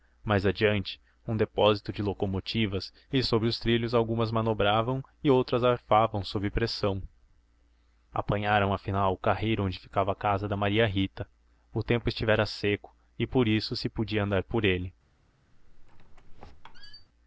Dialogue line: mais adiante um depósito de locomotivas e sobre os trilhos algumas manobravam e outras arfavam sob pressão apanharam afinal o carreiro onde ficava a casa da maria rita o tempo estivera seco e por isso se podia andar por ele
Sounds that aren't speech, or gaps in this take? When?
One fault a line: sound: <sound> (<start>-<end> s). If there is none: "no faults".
sound: squeak (15.5-17.1 s)